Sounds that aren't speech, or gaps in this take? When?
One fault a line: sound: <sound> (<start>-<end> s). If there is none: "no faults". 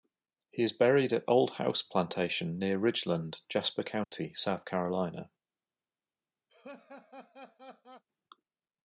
sound: dropout (4.0-4.1 s)
sound: laugh (6.5-8.0 s)